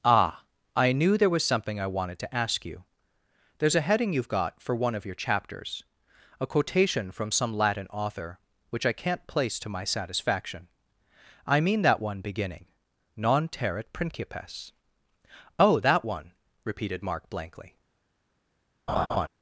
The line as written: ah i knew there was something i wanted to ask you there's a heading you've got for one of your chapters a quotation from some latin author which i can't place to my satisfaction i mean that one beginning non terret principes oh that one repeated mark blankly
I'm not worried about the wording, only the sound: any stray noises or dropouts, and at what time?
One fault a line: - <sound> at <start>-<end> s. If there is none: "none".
- laugh at 18.9-19.3 s